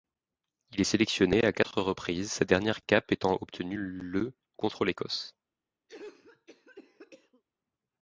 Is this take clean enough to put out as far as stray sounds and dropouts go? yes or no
no